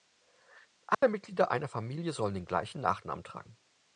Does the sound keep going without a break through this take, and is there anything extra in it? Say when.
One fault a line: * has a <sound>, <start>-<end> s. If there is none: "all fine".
* has a dropout, 0.9-1.0 s